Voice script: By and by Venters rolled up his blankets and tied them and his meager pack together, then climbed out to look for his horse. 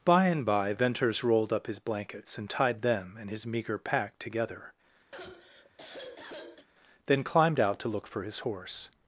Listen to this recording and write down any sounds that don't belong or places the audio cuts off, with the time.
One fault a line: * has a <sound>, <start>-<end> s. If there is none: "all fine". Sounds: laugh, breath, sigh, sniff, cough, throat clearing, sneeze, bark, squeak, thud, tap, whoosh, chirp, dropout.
* has a sigh, 5.1-6.7 s